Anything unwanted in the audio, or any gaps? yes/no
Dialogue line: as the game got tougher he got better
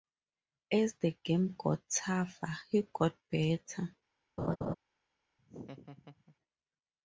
yes